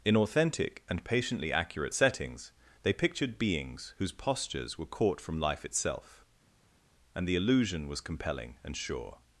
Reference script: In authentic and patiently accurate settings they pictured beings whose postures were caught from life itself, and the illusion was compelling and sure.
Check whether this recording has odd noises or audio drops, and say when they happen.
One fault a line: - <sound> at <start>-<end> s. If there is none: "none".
none